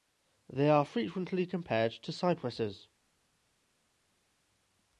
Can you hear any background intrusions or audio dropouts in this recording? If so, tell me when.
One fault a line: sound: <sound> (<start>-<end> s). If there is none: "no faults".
no faults